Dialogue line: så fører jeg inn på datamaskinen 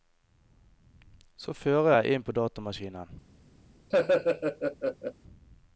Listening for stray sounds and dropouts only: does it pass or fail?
fail